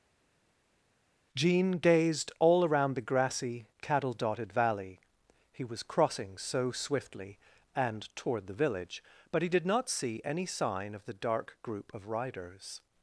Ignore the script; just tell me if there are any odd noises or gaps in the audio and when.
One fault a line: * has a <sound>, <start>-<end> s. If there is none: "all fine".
all fine